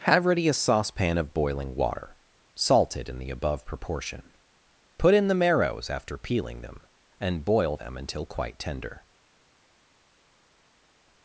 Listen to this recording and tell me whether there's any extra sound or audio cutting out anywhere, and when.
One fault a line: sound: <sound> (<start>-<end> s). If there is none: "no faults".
no faults